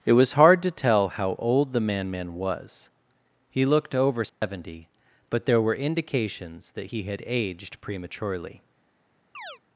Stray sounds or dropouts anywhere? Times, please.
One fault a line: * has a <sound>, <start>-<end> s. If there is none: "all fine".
* has a dropout, 4.3-4.4 s
* has a chirp, 9.3-9.6 s